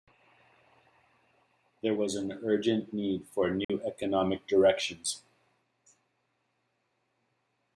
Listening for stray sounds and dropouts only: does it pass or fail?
fail